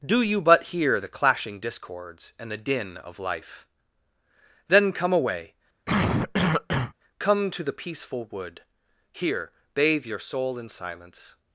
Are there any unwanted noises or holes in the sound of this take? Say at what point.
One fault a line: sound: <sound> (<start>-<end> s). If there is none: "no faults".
sound: cough (5.9-6.9 s)